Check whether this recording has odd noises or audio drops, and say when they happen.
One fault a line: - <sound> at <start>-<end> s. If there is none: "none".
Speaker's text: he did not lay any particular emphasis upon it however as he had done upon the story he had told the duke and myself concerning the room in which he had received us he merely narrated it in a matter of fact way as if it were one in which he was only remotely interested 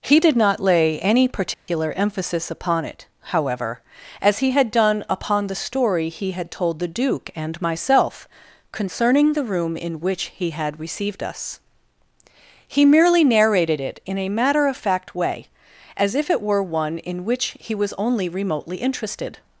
- dropout at 1.5-1.7 s